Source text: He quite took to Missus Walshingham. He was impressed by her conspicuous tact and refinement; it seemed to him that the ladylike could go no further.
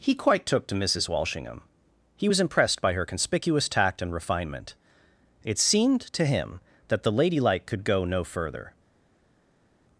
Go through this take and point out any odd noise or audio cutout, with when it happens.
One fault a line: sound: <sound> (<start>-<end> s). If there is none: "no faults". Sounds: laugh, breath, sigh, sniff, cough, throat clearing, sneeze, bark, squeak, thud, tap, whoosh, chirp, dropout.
no faults